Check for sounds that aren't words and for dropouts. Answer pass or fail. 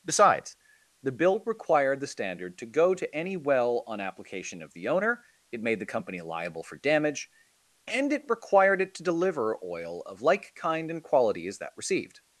pass